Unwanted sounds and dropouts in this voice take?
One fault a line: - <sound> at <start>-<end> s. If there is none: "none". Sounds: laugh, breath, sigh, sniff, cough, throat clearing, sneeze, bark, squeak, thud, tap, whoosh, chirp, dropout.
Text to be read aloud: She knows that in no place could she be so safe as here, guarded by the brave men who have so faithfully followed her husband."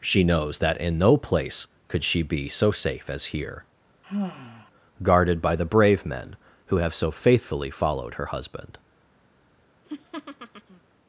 - sigh at 4.0-4.7 s
- laugh at 9.8-10.8 s